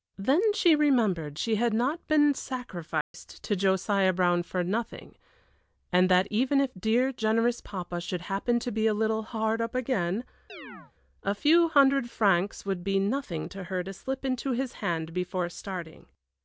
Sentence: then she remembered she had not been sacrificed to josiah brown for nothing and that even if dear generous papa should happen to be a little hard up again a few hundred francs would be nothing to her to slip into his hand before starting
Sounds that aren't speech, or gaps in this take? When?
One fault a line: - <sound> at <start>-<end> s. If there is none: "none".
- dropout at 3.0-3.1 s
- chirp at 10.5-10.9 s